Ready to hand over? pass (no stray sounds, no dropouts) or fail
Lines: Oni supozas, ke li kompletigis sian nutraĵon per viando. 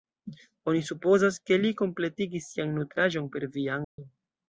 fail